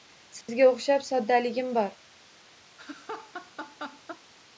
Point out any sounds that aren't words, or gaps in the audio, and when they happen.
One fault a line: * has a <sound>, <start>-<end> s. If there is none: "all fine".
* has a dropout, 0.4-0.5 s
* has a laugh, 2.8-4.2 s